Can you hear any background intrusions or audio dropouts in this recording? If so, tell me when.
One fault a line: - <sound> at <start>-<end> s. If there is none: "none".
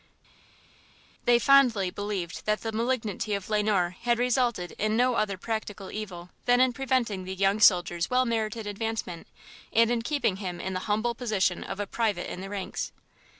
none